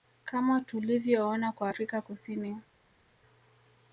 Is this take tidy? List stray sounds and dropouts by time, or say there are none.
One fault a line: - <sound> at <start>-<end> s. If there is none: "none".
none